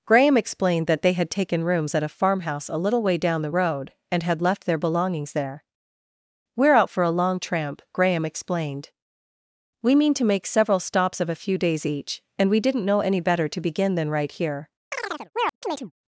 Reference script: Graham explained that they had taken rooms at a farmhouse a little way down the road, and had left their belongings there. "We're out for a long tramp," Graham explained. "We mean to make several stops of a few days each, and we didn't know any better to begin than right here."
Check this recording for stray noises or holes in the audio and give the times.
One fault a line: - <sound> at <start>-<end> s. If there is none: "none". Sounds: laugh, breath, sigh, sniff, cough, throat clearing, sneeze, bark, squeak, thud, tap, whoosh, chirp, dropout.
- chirp at 14.9-15.9 s